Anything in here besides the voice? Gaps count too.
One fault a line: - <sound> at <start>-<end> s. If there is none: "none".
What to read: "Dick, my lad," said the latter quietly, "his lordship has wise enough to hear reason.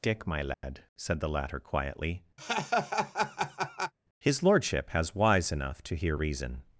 - dropout at 0.5-0.6 s
- laugh at 2.4-3.9 s